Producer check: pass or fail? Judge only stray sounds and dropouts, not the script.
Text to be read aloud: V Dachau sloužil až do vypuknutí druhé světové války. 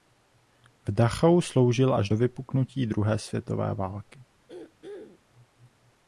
fail